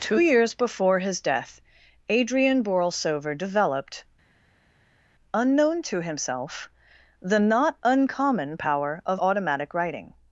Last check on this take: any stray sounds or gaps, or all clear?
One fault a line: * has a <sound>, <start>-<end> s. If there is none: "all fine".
all fine